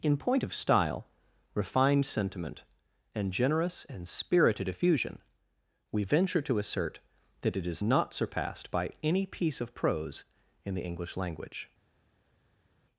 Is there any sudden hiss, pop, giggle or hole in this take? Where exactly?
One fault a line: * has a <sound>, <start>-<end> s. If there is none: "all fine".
all fine